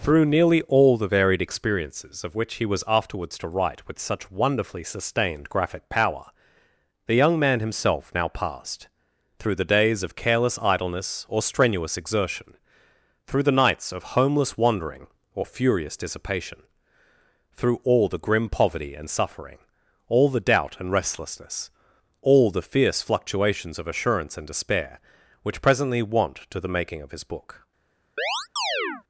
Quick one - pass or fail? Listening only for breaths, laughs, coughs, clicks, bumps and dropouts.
fail